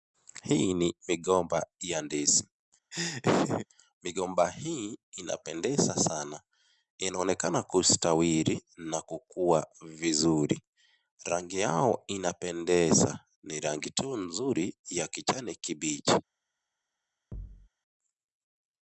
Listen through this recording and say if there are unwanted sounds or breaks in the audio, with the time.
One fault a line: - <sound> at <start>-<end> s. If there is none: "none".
- laugh at 2.9-3.7 s
- thud at 17.3-17.7 s